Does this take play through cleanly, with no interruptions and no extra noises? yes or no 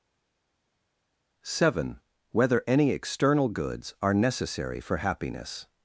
yes